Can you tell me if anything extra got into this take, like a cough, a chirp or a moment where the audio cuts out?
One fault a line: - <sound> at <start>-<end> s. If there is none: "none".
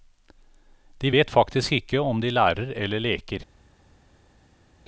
none